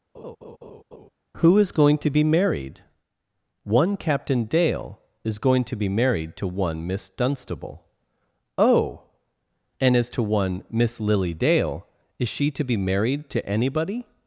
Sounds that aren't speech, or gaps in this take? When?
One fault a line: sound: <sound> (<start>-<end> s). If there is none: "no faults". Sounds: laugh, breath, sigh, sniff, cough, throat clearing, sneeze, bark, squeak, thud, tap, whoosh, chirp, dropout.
sound: laugh (0.1-1.1 s)